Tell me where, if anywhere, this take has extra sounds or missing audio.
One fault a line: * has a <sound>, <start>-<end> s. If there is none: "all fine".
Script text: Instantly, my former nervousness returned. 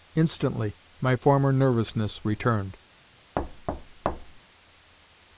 * has a thud, 3.4-4.4 s